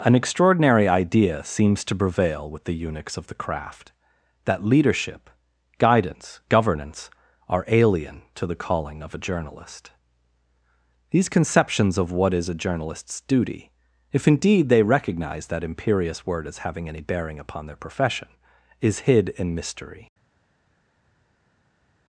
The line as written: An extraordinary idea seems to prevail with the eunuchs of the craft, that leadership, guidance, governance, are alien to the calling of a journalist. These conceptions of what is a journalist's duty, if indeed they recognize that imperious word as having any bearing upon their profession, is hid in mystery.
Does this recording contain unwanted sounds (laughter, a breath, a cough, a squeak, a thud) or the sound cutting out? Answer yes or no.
no